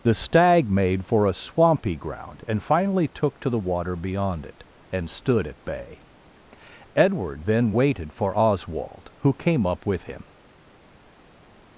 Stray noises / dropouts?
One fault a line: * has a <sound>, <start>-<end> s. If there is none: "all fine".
all fine